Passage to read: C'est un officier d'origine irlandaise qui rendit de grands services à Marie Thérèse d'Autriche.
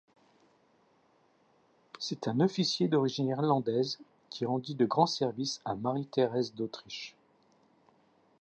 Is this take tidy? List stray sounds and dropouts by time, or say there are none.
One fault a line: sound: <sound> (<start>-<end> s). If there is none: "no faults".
no faults